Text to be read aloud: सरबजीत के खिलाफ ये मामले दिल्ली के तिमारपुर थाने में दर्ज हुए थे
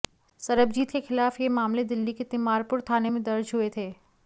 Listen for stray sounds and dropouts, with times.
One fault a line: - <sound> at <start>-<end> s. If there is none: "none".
none